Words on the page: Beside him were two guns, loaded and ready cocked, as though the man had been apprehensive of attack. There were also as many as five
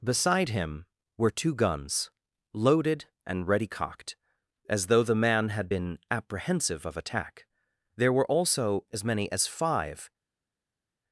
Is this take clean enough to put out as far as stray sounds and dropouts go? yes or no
yes